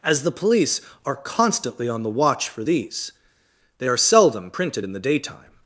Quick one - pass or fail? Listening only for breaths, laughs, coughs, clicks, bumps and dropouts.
pass